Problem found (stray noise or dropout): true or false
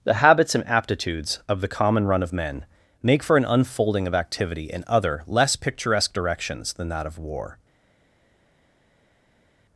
false